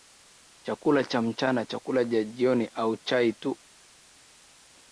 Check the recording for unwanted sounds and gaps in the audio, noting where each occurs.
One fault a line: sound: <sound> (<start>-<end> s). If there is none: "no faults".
no faults